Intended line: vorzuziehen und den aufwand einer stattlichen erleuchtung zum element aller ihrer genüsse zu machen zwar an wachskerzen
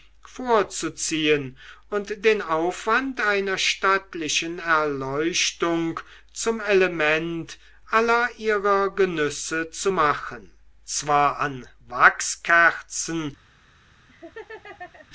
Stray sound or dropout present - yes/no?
yes